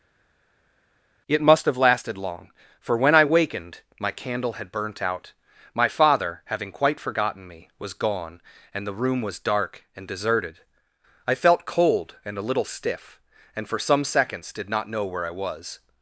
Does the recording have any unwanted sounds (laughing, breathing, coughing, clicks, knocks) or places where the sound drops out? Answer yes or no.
no